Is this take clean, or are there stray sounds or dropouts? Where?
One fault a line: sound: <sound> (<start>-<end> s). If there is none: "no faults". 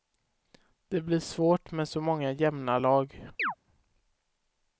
sound: chirp (3.4-3.5 s)